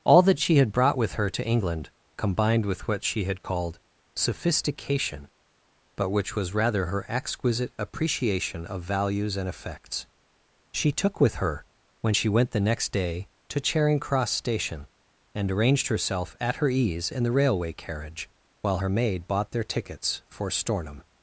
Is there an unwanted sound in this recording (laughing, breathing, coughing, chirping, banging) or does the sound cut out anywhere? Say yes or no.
no